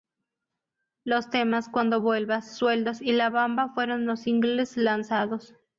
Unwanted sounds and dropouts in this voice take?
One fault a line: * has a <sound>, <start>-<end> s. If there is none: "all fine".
all fine